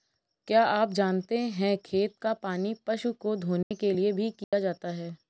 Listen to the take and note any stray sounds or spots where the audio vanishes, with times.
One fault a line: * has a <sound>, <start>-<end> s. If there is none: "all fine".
* has a dropout, 3.6-3.7 s
* has a dropout, 4.4-4.5 s